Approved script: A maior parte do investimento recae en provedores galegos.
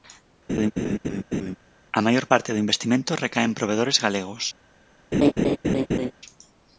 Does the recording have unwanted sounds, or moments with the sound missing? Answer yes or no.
yes